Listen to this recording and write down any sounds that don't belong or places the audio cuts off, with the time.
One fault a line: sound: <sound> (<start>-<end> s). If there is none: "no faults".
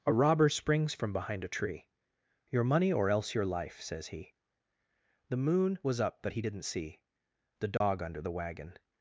sound: dropout (7.8-7.8 s)